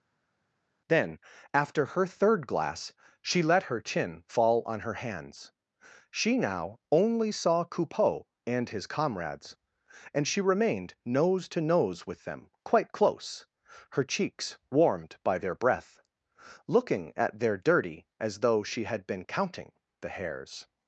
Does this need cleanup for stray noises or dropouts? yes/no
no